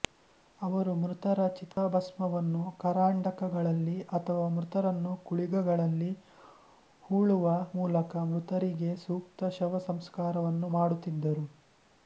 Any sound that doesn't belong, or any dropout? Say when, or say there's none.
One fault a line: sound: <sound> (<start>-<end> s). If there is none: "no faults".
sound: dropout (1.7-1.8 s)